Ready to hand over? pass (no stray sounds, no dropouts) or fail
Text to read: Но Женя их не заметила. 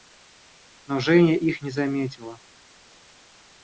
pass